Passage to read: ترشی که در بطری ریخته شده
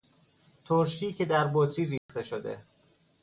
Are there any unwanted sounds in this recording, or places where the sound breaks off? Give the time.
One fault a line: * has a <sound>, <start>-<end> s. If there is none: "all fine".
* has a dropout, 2.0-2.1 s